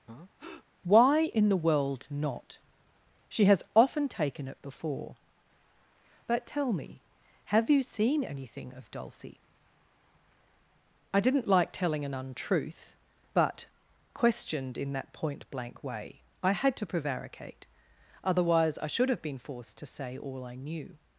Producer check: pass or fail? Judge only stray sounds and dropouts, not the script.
fail